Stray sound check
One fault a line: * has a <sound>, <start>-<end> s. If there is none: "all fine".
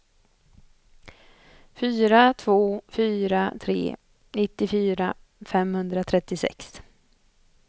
all fine